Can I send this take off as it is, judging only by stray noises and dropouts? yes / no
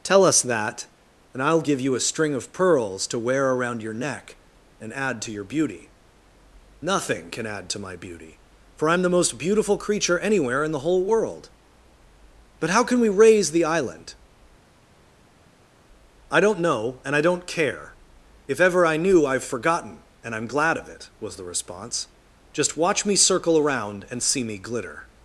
yes